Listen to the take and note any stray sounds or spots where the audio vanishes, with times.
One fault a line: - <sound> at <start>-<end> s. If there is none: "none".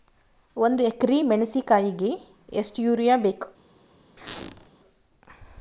- squeak at 4.2-4.7 s